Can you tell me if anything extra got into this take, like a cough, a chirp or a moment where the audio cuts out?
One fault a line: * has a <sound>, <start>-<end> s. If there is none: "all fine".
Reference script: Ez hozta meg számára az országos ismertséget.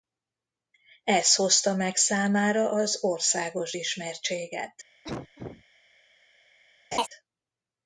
* has a cough, 5.0-5.6 s
* has a laugh, 6.9-7.1 s